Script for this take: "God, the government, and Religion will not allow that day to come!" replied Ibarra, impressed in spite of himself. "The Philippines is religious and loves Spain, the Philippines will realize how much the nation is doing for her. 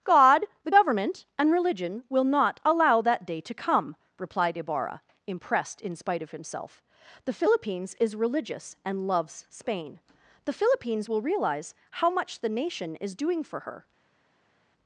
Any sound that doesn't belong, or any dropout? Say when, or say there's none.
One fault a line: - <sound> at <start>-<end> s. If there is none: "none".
none